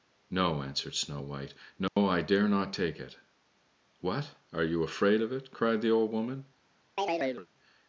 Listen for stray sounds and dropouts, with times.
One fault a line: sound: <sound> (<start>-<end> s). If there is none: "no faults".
sound: dropout (1.9-2.0 s)
sound: chirp (7.0-7.5 s)